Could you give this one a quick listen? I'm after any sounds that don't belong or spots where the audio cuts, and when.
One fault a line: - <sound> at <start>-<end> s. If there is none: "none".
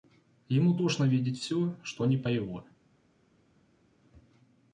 none